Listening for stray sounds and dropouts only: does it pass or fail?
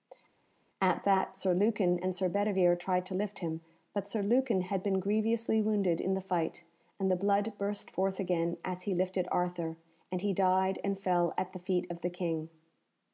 pass